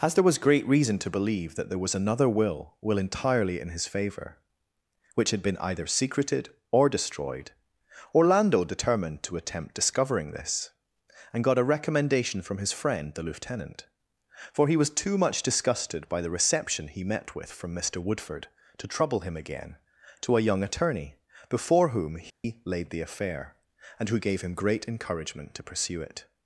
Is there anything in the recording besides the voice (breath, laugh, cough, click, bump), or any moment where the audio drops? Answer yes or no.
yes